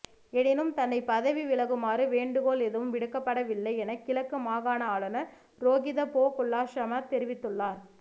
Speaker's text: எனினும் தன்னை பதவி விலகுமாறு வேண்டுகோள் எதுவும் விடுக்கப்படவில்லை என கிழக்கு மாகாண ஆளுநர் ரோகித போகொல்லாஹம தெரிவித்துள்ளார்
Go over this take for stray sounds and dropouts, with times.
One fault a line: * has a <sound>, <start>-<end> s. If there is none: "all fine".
all fine